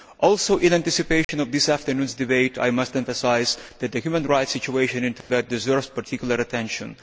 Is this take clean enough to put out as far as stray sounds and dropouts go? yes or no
no